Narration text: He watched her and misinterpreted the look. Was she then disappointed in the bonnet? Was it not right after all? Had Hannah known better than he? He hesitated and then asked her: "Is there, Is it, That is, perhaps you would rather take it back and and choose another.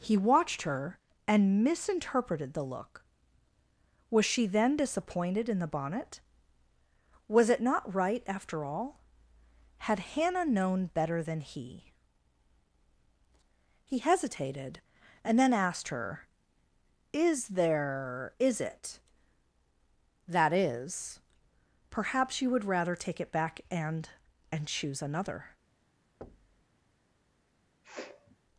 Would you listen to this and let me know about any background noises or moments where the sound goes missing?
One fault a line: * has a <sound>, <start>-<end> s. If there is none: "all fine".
* has a thud, 26.2-26.6 s
* has a sniff, 27.8-28.4 s